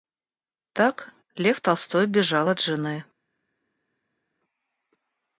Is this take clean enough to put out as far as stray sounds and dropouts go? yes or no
yes